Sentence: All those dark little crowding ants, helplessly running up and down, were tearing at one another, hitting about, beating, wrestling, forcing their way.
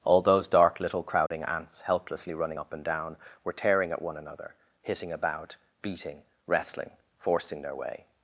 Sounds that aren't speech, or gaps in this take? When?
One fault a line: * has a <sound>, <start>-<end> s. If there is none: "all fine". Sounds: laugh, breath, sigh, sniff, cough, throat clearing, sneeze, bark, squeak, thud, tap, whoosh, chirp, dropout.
* has a dropout, 1.3-1.3 s